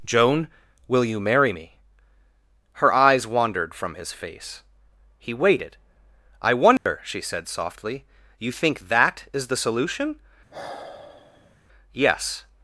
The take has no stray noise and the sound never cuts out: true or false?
false